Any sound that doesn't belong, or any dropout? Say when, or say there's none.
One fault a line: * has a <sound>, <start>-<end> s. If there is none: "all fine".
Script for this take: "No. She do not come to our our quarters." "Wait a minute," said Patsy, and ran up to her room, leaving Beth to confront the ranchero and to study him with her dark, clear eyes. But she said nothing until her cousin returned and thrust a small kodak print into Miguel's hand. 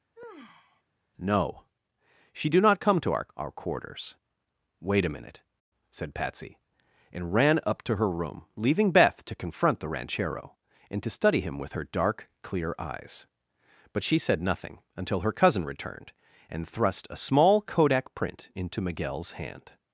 * has a sigh, 0.1-0.8 s